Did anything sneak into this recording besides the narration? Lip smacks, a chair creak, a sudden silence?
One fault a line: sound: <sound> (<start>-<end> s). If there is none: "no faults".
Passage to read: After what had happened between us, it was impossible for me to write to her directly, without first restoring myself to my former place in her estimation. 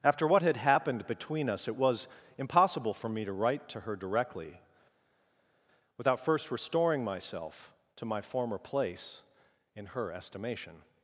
no faults